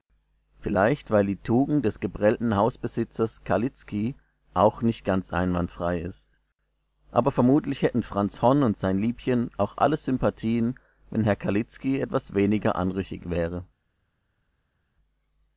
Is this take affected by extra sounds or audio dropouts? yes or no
no